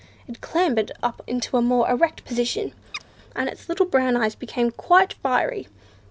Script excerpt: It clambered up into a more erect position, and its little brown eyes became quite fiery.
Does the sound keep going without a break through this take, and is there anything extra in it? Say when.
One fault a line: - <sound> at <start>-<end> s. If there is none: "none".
- chirp at 2.9-3.0 s